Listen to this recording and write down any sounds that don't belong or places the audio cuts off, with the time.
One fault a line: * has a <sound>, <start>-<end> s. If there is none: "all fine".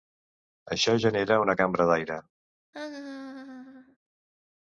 * has a laugh, 2.7-4.0 s